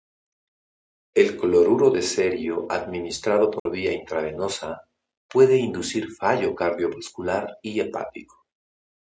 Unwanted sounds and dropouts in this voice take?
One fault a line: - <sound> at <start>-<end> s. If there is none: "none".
- dropout at 3.6-3.7 s